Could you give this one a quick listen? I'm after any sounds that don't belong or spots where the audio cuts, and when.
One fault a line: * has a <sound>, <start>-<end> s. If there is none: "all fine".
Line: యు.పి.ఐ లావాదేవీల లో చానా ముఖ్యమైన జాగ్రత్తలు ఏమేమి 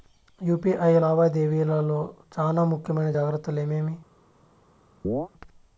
* has a chirp, 5.0-5.3 s